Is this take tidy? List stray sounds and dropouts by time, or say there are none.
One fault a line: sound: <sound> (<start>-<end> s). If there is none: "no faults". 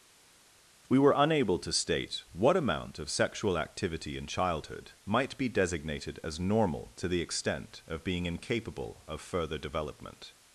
no faults